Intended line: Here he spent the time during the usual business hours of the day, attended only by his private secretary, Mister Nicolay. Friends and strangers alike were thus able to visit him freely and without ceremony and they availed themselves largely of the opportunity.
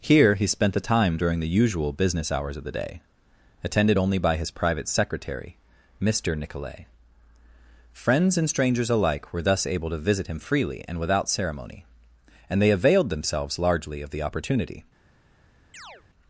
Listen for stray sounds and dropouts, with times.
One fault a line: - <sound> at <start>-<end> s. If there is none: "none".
- chirp at 15.7-16.0 s